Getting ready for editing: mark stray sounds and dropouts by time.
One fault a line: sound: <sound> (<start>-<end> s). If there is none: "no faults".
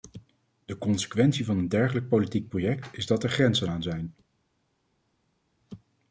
no faults